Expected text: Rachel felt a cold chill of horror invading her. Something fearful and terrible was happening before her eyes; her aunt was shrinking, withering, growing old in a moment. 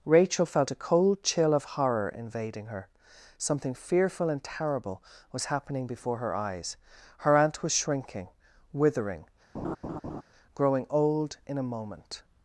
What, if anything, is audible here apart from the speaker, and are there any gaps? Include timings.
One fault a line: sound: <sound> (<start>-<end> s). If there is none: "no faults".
sound: laugh (9.5-10.2 s)